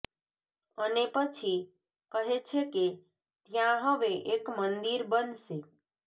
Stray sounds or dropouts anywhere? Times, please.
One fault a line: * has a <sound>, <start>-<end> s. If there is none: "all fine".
all fine